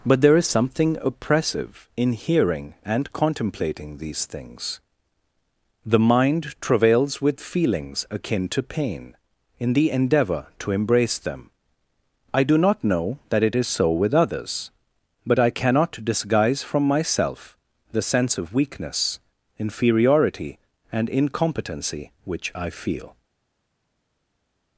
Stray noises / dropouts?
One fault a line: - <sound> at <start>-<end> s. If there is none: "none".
none